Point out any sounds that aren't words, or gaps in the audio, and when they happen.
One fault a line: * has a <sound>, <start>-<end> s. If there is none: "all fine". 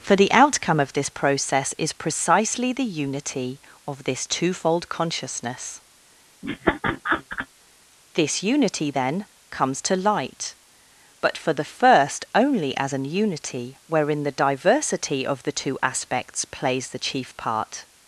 * has a laugh, 6.4-7.5 s